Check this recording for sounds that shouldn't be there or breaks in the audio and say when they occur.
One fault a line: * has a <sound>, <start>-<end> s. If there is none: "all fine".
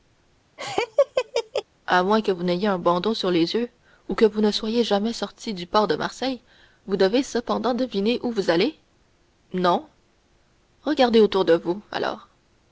* has a laugh, 0.6-1.6 s